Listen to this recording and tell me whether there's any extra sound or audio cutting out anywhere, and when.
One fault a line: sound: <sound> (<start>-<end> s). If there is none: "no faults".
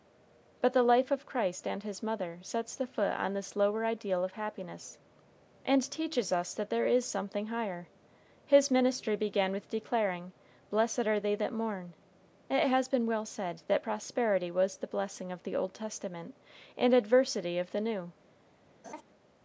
sound: laugh (18.8-19.0 s)